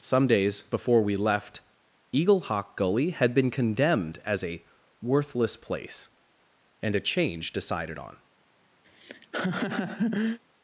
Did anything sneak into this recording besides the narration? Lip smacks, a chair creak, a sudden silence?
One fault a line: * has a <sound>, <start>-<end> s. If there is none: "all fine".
* has a laugh, 8.8-10.4 s